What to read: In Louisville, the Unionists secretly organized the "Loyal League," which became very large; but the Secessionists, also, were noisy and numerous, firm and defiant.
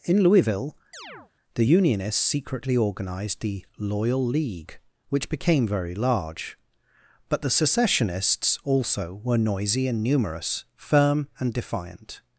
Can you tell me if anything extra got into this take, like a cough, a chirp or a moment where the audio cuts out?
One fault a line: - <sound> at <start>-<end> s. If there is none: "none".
- chirp at 0.9-1.3 s